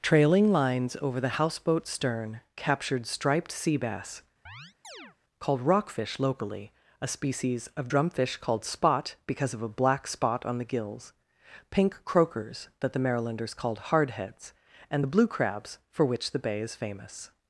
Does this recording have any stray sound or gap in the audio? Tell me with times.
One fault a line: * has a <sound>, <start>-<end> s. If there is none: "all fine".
* has a chirp, 4.5-5.2 s